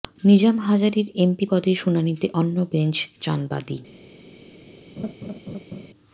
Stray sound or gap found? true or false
true